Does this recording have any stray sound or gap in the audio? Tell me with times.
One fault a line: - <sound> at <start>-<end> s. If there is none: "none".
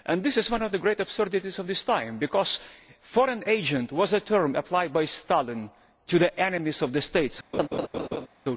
- laugh at 7.5-8.3 s